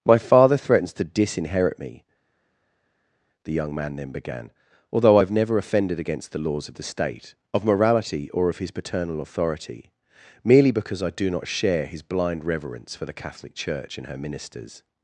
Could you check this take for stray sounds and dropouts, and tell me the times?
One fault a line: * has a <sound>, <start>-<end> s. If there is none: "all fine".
all fine